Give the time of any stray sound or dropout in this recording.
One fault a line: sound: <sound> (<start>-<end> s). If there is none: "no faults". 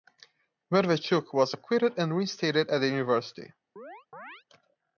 sound: chirp (3.8-4.4 s)